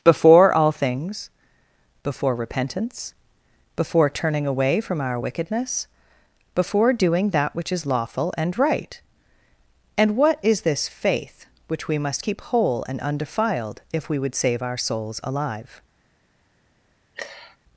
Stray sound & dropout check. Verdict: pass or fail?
fail